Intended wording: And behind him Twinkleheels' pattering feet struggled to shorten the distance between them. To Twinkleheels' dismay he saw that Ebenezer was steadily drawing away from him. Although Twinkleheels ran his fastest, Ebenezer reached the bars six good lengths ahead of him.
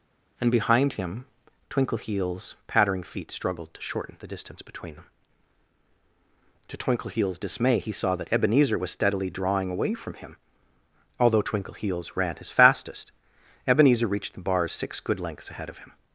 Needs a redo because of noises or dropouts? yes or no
no